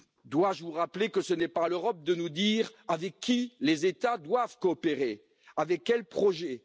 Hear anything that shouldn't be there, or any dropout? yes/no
no